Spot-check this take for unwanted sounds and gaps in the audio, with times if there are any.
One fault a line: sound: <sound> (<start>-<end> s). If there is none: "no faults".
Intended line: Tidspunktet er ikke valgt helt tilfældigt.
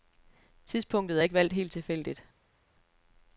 no faults